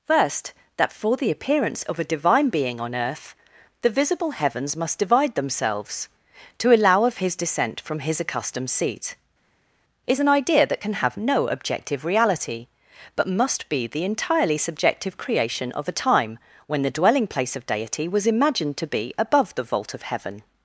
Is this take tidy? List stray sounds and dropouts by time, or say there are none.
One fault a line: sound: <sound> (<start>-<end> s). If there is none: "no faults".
no faults